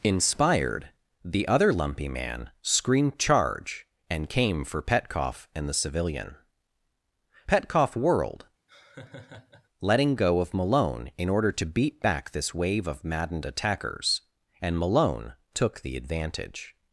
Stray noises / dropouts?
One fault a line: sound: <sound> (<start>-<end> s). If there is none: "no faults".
sound: laugh (8.7-9.7 s)